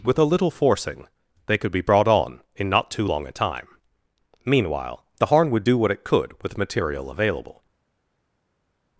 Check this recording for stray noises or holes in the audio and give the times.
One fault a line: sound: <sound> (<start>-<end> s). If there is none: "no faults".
no faults